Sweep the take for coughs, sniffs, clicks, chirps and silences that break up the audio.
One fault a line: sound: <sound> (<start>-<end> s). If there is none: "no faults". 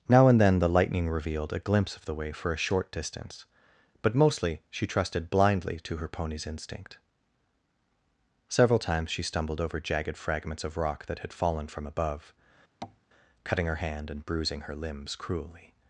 sound: tap (12.8-13.0 s)